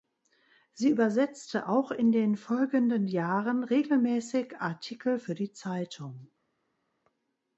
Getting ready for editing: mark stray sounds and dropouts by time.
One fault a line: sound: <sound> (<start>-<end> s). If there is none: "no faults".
no faults